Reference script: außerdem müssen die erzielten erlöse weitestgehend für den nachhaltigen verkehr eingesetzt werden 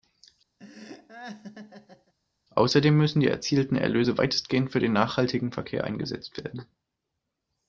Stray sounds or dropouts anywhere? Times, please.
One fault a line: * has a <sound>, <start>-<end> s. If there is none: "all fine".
* has a laugh, 0.6-2.1 s